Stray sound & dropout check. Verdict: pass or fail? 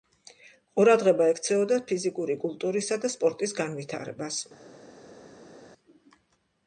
pass